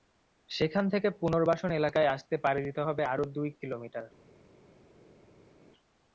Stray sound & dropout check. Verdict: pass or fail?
pass